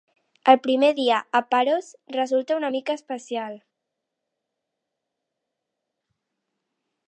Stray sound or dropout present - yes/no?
no